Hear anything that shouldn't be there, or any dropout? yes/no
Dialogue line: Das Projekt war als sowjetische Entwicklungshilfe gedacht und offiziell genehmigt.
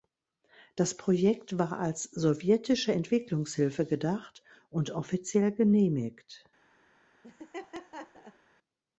yes